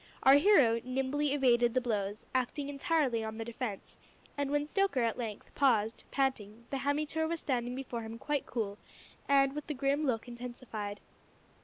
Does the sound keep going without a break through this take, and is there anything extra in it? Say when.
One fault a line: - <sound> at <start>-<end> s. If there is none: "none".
none